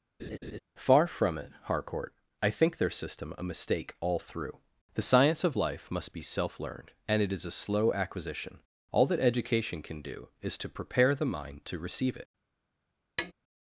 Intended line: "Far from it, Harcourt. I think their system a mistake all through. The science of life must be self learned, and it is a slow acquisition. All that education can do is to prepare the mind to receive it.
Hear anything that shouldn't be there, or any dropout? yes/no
yes